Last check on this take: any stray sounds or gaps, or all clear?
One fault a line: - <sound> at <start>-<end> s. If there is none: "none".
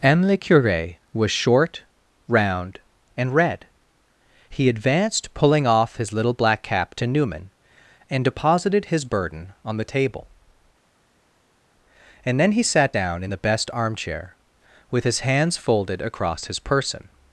none